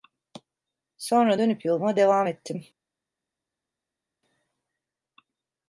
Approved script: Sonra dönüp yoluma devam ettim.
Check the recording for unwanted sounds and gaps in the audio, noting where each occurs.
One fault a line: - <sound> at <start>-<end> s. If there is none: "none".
none